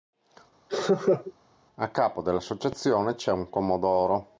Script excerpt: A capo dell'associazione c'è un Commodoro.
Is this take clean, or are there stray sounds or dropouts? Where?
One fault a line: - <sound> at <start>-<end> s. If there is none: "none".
- laugh at 0.7-1.3 s